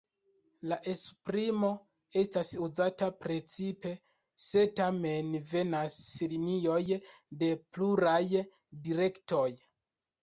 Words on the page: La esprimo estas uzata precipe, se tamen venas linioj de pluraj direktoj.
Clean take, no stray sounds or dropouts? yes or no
yes